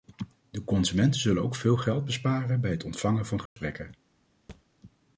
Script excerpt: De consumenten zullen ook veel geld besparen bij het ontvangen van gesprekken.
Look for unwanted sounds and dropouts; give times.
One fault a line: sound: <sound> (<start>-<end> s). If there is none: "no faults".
sound: dropout (3.5-3.6 s)
sound: thud (4.5-4.6 s)